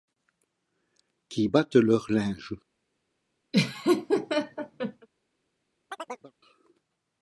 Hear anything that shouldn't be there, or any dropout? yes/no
yes